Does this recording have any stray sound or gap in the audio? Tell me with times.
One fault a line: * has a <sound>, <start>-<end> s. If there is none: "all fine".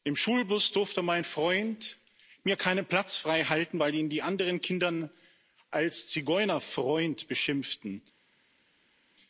all fine